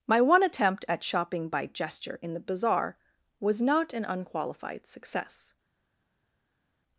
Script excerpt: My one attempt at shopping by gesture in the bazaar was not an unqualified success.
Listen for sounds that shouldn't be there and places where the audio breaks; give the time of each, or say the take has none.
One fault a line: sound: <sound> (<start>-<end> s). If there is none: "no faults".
no faults